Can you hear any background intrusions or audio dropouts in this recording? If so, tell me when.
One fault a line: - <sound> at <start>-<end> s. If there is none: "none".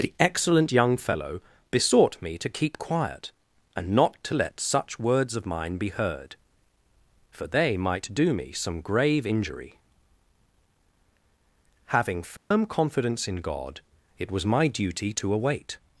- dropout at 12.4-12.5 s